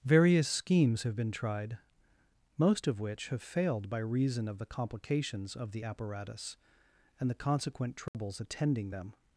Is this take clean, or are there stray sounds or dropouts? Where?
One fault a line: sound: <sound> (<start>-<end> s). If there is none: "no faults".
sound: dropout (8.1-8.1 s)